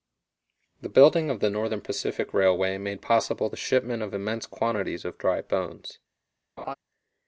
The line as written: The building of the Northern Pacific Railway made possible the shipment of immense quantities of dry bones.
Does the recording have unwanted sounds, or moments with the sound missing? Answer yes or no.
yes